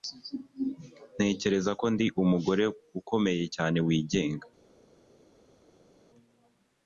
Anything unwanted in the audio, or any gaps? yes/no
no